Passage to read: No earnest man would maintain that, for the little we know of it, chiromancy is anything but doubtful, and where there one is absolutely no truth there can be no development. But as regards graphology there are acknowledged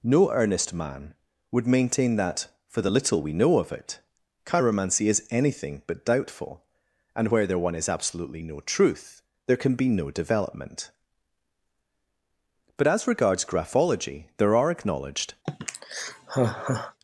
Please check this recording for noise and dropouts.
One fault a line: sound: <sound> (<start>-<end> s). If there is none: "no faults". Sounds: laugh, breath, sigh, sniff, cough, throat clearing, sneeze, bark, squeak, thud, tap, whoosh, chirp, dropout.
sound: sigh (15.5-17.0 s)